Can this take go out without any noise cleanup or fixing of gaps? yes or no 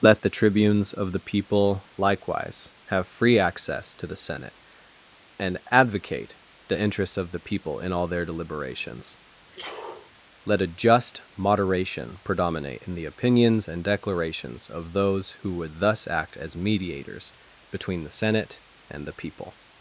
no